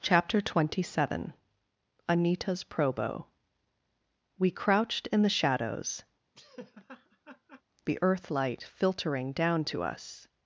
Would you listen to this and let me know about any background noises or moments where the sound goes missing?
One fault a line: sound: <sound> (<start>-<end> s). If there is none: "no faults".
sound: laugh (6.3-7.6 s)